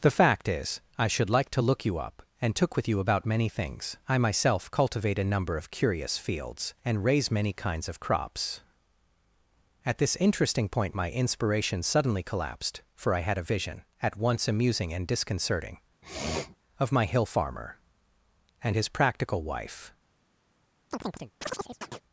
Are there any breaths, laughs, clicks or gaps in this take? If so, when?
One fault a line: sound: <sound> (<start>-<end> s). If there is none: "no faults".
sound: sniff (16.0-16.6 s)
sound: chirp (20.9-22.0 s)